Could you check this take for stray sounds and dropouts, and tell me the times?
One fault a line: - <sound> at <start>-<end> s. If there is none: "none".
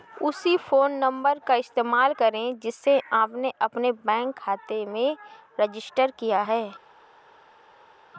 none